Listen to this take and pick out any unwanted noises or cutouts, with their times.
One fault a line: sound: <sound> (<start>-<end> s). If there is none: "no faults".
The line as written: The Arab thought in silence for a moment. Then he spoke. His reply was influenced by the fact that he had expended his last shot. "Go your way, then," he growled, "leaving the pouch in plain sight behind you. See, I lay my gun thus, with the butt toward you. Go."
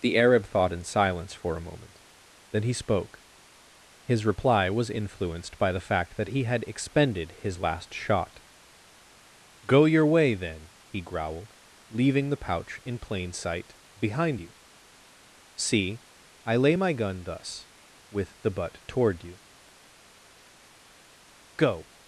no faults